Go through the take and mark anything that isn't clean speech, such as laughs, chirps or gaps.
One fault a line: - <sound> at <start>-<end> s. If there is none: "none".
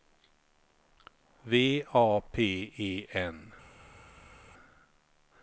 none